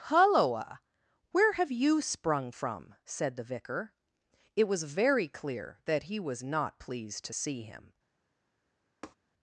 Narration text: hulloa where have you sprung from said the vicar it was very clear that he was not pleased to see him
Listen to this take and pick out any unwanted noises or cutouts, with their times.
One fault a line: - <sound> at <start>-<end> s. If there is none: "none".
- tap at 9.0-9.2 s